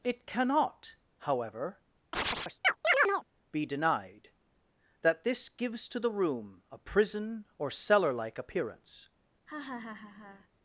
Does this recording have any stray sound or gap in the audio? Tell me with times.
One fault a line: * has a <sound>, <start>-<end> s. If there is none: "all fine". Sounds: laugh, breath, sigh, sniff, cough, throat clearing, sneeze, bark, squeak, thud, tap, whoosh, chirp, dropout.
* has a chirp, 2.1-3.2 s
* has a laugh, 9.5-10.5 s